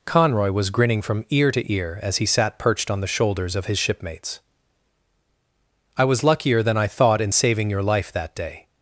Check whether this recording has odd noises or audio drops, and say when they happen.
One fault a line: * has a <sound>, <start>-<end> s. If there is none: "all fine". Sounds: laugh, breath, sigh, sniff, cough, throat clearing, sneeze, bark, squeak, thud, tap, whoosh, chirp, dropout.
all fine